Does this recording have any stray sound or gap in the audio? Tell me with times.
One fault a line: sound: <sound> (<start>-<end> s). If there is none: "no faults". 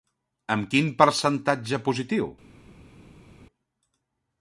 no faults